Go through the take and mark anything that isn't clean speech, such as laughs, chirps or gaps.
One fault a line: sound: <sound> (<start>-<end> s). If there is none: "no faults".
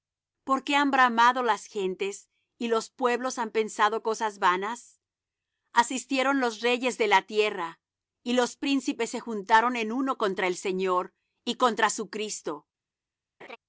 sound: laugh (13.4-13.6 s)